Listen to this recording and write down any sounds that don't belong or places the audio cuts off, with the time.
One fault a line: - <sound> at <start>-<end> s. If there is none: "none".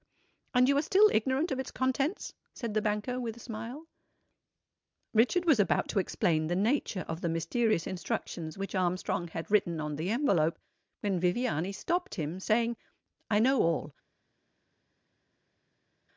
none